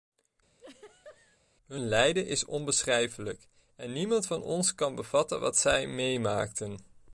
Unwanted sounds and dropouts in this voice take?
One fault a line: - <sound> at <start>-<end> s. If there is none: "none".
- laugh at 0.6-1.4 s